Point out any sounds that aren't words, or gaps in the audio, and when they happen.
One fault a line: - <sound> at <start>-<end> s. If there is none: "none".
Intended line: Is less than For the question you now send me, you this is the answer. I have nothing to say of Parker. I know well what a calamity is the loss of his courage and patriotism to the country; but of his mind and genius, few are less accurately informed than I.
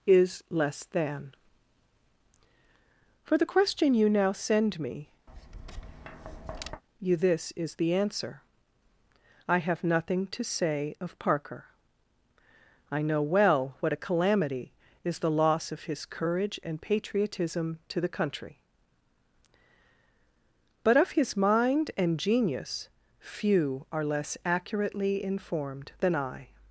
- tap at 5.3-6.8 s